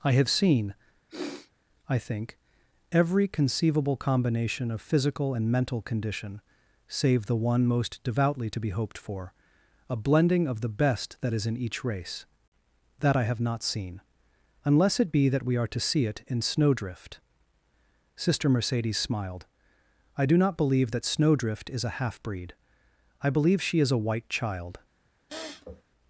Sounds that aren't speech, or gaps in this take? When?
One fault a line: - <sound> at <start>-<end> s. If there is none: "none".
- sniff at 1.1-1.5 s
- sniff at 25.3-25.8 s